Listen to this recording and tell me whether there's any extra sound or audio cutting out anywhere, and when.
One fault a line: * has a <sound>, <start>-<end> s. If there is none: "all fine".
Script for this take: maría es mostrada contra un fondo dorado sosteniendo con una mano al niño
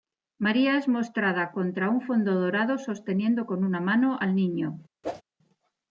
* has a whoosh, 5.0-5.2 s